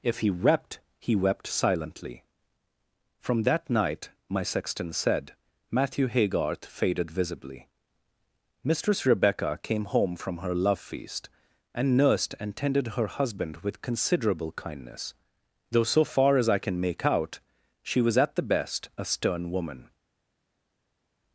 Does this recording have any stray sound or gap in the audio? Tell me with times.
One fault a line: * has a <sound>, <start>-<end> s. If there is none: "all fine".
all fine